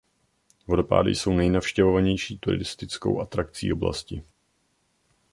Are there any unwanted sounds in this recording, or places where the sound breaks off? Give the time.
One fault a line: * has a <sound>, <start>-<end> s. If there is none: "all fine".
all fine